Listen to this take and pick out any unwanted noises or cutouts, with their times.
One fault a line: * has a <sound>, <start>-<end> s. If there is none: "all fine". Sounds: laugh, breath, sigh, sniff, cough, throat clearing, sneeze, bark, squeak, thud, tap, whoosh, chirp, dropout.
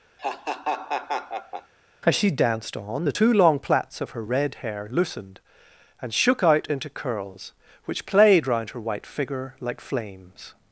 * has a laugh, 0.2-1.7 s